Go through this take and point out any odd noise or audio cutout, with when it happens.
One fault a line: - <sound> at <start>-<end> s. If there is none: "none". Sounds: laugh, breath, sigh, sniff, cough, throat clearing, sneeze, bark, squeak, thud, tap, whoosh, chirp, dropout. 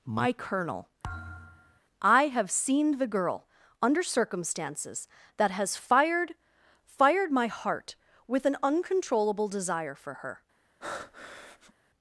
- thud at 1.0-1.8 s
- breath at 10.8-11.7 s